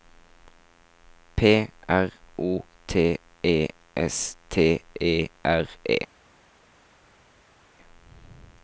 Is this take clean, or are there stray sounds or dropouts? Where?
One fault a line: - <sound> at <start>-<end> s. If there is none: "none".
none